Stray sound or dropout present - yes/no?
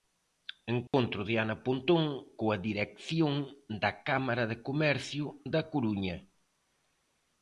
yes